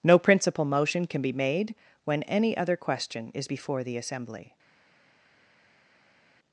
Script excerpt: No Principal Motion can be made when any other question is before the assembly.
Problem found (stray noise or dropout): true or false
false